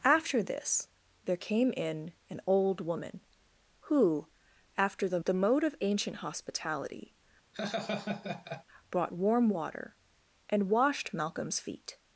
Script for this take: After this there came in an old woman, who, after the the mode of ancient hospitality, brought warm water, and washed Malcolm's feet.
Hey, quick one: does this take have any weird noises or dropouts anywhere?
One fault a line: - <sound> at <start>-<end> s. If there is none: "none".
- laugh at 7.5-8.6 s